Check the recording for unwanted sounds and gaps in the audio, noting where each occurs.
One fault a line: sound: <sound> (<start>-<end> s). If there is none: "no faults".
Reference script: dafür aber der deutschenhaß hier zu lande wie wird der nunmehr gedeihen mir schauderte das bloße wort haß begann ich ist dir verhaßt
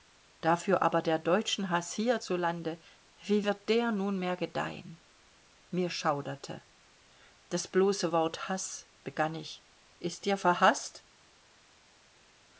no faults